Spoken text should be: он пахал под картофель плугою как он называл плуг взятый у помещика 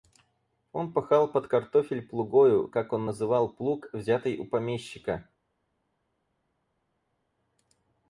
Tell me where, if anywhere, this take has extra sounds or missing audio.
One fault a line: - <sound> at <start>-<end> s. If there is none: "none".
none